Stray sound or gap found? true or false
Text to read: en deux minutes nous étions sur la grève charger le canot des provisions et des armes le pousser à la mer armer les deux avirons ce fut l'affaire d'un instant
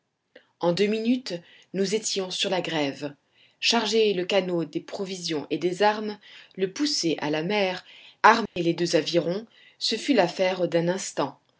true